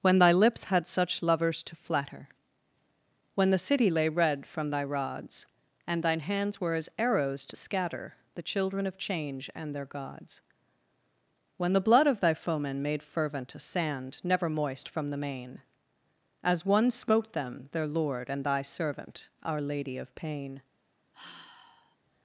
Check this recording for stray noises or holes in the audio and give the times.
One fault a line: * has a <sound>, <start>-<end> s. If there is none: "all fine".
* has a sigh, 21.1-22.0 s